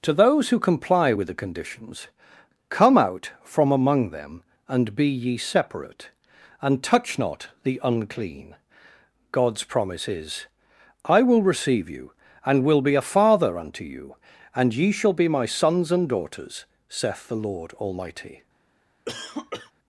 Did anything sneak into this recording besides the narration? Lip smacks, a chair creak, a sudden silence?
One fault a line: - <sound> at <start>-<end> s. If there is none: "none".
- cough at 19.1-19.7 s